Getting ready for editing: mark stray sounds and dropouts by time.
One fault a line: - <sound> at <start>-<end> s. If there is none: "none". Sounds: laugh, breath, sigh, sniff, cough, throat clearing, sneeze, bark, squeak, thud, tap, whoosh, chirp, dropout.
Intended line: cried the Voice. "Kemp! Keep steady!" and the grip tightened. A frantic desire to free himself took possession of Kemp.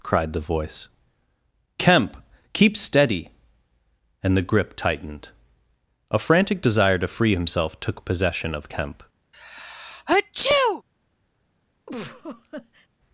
- sneeze at 9.3-10.8 s
- laugh at 11.9-12.9 s